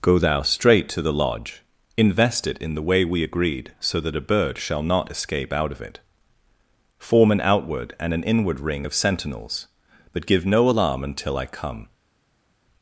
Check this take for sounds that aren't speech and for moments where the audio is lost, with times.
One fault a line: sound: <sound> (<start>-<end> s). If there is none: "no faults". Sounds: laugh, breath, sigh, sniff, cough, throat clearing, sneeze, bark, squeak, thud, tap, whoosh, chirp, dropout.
no faults